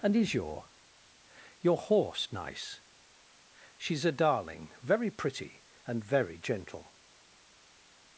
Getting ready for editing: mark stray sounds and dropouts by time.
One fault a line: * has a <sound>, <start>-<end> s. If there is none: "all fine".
all fine